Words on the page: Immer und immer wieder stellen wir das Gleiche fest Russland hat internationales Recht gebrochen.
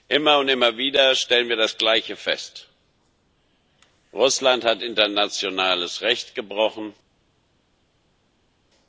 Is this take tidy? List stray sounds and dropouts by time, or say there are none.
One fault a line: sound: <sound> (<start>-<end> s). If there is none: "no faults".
no faults